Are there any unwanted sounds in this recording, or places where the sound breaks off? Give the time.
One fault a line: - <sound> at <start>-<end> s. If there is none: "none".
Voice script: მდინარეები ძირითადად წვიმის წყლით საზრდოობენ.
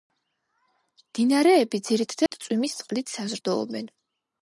- dropout at 2.3-2.3 s